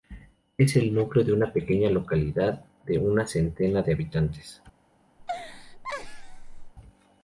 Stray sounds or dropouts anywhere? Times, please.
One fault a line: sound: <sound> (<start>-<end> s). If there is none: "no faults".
sound: laugh (5.2-6.7 s)